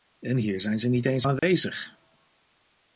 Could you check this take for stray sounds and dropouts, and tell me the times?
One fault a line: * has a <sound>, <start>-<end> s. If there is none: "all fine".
* has a dropout, 1.4-1.4 s